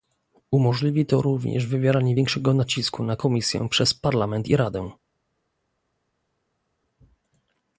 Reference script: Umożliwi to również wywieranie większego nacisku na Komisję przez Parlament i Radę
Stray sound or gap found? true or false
false